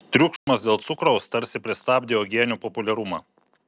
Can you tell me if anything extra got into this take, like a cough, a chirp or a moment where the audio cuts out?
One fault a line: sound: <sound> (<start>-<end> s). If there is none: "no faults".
sound: dropout (0.4-0.5 s)